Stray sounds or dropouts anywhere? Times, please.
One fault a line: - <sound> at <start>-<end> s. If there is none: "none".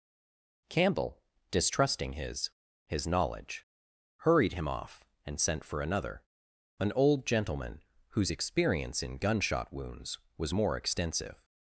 none